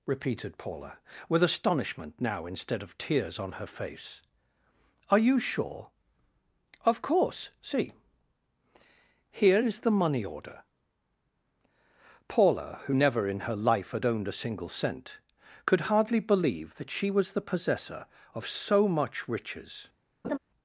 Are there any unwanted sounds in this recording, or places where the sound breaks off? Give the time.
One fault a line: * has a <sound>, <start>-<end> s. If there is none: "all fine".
* has a laugh, 20.2-20.4 s